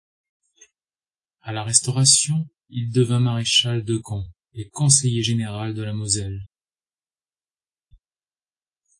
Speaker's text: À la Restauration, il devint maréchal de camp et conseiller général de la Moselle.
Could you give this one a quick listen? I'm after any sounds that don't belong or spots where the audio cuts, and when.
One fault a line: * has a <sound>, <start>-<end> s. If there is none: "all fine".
all fine